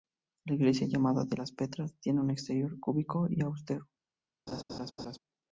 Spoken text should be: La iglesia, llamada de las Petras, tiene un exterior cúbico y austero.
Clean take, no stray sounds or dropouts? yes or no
no